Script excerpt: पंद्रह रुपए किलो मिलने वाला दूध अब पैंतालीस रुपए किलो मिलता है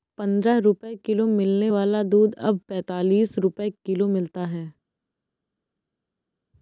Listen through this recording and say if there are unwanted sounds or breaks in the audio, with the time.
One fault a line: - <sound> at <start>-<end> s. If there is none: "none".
none